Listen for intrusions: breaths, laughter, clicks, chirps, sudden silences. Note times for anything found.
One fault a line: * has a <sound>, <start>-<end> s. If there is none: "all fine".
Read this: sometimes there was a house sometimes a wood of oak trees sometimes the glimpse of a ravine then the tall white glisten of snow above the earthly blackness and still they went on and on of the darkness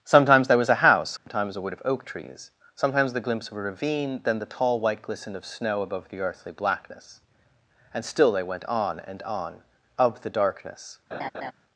* has a dropout, 1.2-1.3 s
* has a laugh, 11.1-11.5 s